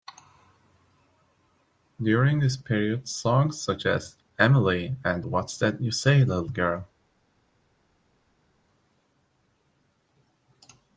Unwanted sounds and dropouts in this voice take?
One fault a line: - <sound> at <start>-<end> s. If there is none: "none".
none